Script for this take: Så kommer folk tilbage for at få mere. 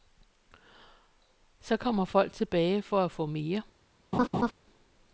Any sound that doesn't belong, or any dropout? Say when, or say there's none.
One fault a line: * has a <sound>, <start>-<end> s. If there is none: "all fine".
* has a laugh, 4.1-4.5 s